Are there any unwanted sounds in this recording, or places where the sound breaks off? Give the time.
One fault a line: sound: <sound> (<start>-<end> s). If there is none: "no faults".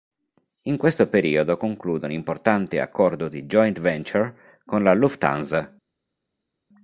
no faults